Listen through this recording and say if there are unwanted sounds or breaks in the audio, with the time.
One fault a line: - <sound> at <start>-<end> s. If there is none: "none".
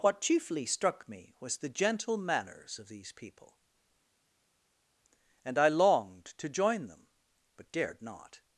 none